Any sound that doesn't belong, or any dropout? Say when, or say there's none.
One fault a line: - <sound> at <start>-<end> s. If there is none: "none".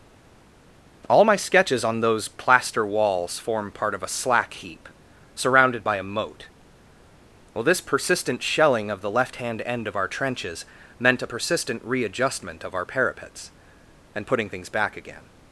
none